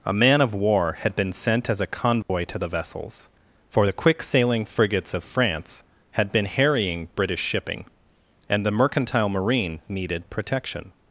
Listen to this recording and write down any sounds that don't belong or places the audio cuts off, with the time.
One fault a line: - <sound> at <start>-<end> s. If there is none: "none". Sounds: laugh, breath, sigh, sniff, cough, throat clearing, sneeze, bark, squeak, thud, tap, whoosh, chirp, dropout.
- dropout at 2.2-2.3 s